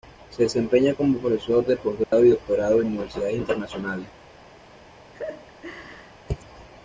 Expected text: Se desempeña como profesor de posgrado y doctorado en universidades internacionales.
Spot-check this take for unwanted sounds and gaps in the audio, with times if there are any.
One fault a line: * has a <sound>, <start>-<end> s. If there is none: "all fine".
* has a dropout, 2.0-2.1 s
* has a laugh, 5.1-6.1 s